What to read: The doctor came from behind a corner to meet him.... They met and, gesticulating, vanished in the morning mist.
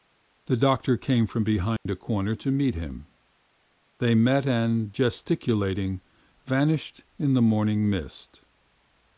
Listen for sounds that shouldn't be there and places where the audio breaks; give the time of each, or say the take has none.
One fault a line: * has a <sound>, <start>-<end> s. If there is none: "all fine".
* has a dropout, 1.8-1.9 s